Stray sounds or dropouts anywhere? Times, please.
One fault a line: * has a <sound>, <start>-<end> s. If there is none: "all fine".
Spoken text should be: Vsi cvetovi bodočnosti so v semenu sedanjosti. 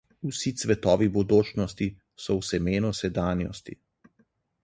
all fine